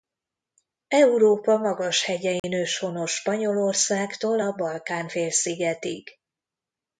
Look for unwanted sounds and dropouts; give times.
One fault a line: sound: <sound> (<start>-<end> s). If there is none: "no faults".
sound: dropout (2.4-2.4 s)